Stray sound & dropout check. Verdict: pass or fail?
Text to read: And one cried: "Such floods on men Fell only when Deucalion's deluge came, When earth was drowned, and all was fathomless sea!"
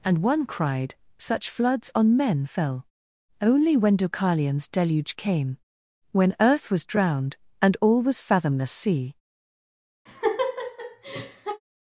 fail